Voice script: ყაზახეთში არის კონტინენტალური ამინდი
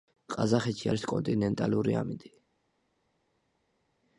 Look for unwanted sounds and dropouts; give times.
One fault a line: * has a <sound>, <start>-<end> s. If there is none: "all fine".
all fine